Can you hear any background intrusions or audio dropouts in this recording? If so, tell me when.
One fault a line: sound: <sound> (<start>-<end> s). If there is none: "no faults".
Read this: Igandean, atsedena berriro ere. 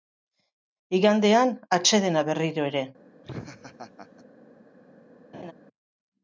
sound: laugh (3.2-4.2 s)
sound: laugh (5.3-5.5 s)